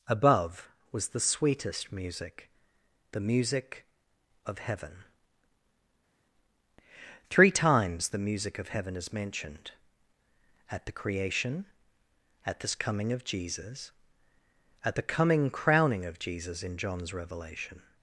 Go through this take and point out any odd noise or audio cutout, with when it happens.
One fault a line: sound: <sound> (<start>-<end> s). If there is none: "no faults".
no faults